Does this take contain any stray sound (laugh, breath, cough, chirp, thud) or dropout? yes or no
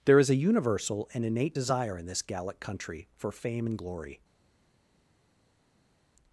no